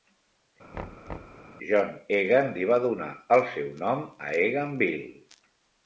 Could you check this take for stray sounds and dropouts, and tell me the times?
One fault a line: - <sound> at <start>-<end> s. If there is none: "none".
- thud at 0.7-1.5 s